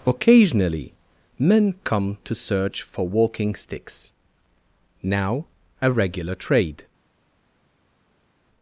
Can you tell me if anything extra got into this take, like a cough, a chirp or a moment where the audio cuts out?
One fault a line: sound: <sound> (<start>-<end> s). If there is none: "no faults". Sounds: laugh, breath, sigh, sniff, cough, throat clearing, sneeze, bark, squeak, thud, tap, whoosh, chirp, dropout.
no faults